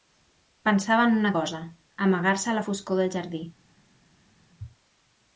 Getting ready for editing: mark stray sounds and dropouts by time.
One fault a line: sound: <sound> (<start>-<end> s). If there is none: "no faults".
no faults